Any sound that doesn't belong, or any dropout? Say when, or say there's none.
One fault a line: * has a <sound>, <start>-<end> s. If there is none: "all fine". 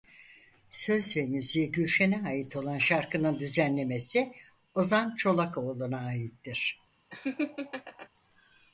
* has a laugh, 7.1-8.1 s